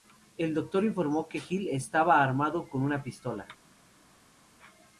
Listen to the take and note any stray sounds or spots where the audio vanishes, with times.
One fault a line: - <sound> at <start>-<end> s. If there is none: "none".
none